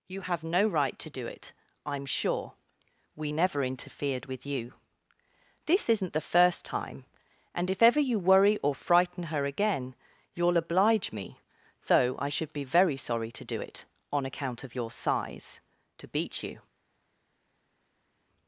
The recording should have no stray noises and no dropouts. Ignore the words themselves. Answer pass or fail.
pass